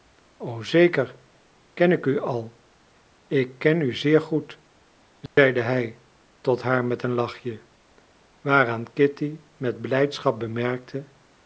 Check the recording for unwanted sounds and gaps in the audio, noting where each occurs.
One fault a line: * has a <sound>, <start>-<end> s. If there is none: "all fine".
* has a dropout, 5.3-5.4 s